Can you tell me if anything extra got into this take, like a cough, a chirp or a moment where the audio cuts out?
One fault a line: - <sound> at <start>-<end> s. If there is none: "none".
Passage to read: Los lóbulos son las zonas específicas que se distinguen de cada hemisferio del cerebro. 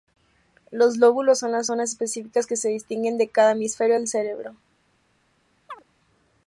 - chirp at 5.7-5.8 s